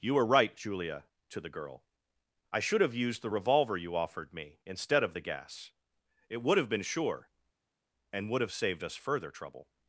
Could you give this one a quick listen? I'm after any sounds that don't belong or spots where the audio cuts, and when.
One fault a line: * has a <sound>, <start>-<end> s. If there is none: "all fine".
all fine